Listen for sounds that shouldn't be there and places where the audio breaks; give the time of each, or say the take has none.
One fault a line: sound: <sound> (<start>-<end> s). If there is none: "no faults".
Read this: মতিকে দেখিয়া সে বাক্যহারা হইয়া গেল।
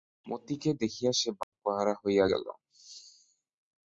sound: dropout (1.4-1.5 s)